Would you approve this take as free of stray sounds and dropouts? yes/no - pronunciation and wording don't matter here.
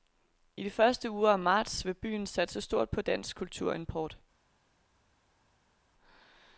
yes